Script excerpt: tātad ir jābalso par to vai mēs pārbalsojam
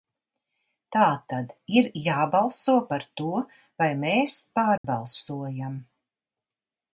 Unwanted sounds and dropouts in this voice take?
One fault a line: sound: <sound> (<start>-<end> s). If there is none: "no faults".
sound: dropout (4.8-4.8 s)